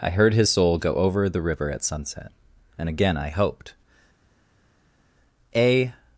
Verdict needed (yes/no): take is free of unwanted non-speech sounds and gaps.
yes